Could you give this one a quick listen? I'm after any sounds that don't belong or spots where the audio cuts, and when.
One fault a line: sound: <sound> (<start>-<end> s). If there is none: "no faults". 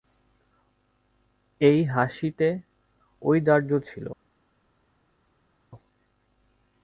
no faults